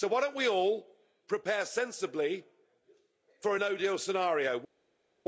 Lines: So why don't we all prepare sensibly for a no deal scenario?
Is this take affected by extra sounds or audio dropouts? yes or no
no